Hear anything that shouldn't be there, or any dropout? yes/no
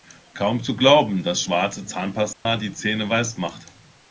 yes